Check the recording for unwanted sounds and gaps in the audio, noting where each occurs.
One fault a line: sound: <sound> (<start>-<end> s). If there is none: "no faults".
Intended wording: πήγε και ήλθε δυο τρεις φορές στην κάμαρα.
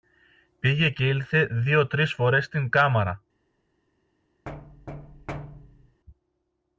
sound: thud (4.5-6.0 s)